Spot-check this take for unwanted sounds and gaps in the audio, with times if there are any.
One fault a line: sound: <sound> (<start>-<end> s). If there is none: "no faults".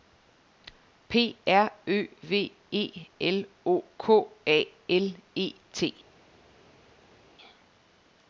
no faults